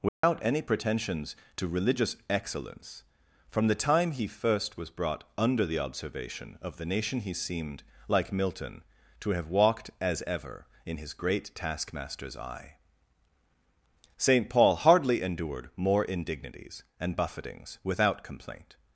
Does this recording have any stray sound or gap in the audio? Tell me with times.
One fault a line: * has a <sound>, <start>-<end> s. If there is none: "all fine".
* has a dropout, 0.1-0.2 s